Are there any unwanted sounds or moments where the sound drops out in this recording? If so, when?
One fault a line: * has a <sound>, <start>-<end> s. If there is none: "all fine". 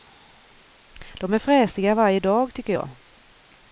all fine